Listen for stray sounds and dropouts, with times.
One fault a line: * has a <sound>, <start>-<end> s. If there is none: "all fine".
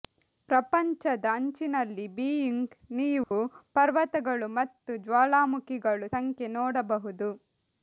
* has a dropout, 3.2-3.3 s